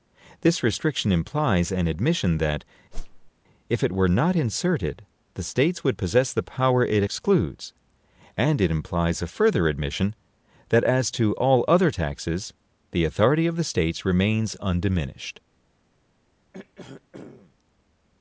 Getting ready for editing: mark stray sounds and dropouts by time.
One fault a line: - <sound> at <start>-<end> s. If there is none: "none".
- whoosh at 2.9-3.3 s
- throat clearing at 16.5-17.5 s